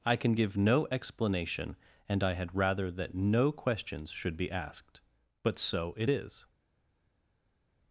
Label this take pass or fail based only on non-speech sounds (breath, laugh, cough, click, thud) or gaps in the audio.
pass